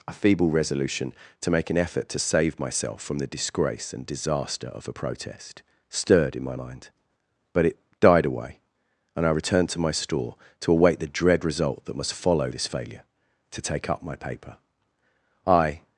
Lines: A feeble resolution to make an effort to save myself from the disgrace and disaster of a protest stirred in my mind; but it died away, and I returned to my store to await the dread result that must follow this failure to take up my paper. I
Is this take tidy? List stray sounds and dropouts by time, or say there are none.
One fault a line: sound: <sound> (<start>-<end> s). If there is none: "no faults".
no faults